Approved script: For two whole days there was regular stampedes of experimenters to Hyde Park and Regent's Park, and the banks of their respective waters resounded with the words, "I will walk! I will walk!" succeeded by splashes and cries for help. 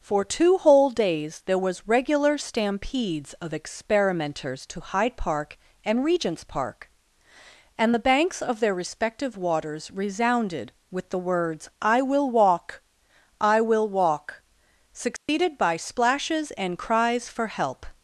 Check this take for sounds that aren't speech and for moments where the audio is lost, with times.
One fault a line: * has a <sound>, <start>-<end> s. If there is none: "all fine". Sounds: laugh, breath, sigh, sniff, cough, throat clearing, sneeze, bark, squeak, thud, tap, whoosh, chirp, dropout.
* has a dropout, 15.2-15.3 s